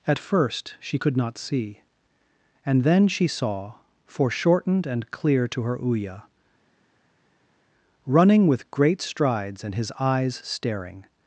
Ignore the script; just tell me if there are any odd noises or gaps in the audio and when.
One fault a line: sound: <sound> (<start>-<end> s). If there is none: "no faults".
no faults